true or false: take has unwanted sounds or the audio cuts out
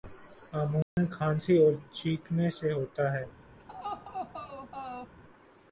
true